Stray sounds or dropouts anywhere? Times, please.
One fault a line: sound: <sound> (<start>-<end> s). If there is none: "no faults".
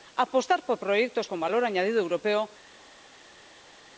no faults